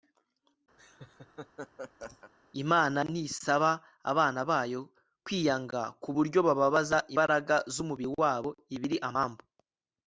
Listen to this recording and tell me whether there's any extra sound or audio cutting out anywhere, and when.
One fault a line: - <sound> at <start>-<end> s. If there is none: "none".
- laugh at 0.8-2.3 s